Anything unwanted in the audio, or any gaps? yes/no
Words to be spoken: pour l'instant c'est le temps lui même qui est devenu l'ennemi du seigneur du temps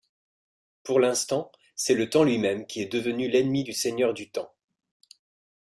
no